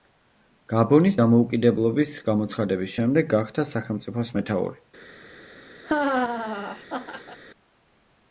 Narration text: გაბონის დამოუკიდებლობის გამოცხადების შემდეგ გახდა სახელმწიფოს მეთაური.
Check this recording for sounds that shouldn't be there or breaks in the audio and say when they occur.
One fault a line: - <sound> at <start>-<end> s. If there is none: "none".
- laugh at 5.8-7.4 s